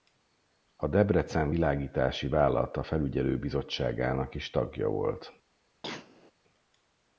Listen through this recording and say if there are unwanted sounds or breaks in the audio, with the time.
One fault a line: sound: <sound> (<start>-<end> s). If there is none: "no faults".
sound: cough (5.8-6.3 s)